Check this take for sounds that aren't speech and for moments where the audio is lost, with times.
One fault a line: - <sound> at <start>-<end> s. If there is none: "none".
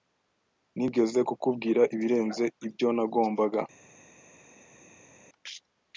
none